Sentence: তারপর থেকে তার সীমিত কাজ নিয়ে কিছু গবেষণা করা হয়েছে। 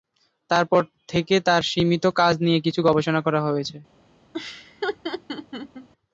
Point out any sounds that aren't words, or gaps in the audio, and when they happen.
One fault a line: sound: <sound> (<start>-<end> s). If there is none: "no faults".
sound: laugh (4.3-5.9 s)